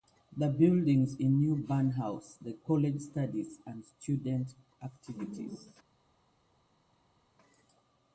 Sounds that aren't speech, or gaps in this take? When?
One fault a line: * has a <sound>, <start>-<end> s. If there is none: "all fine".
all fine